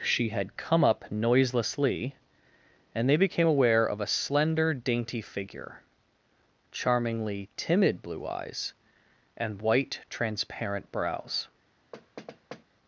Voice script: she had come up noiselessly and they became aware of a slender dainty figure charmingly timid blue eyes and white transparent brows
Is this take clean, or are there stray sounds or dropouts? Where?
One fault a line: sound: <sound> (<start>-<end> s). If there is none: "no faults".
sound: thud (11.9-12.6 s)